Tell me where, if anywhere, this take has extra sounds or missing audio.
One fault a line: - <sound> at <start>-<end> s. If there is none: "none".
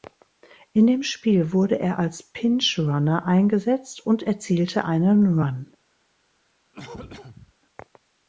- cough at 6.7-7.5 s